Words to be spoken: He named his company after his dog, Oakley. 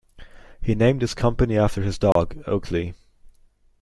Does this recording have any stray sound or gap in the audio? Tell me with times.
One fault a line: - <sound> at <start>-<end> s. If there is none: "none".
- dropout at 2.1-2.2 s